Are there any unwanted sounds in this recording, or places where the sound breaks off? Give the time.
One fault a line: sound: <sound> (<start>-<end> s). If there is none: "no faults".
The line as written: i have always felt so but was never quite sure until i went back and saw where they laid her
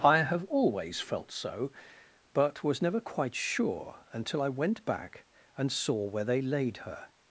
no faults